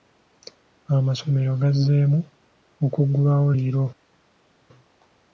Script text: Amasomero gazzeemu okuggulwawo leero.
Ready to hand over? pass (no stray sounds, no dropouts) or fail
pass